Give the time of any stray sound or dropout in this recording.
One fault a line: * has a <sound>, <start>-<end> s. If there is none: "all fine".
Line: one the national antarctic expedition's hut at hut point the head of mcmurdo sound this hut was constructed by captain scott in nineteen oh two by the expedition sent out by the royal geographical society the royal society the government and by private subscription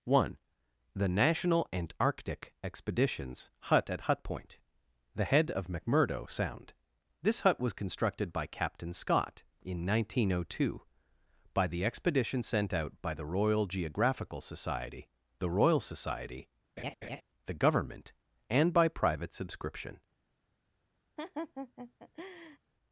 * has a laugh, 16.8-17.2 s
* has a laugh, 21.2-22.6 s